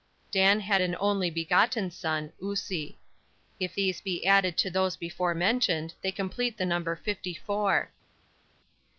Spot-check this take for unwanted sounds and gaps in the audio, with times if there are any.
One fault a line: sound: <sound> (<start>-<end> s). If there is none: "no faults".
no faults